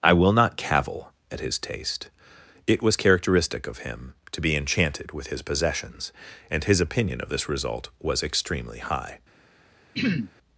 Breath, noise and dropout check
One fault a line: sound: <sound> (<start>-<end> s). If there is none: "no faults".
sound: throat clearing (9.9-10.3 s)